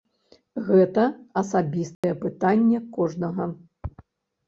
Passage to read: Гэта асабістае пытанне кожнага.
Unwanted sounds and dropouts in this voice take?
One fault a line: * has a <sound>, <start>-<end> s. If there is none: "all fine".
* has a dropout, 1.9-2.0 s